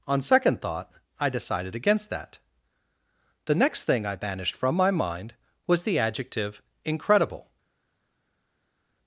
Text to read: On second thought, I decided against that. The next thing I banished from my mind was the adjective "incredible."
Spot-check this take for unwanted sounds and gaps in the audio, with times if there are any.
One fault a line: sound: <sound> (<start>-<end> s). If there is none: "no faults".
no faults